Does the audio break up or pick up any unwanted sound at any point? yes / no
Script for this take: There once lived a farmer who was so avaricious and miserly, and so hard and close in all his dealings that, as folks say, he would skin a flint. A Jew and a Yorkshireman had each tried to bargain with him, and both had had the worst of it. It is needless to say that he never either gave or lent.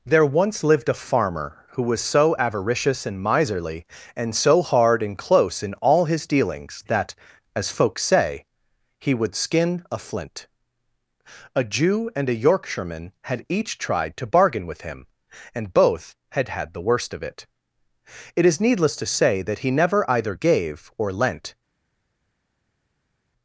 no